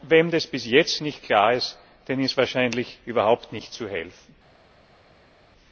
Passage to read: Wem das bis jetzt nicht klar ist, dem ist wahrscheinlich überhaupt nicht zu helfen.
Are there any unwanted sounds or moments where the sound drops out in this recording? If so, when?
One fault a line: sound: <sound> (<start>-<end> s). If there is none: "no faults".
no faults